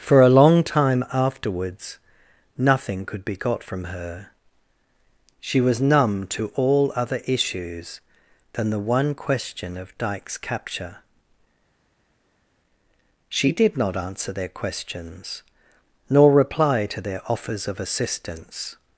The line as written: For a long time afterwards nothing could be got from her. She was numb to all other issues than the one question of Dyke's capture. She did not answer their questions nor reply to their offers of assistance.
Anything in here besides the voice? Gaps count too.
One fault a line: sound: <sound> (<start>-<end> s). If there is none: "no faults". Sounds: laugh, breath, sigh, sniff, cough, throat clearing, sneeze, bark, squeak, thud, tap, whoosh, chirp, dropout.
no faults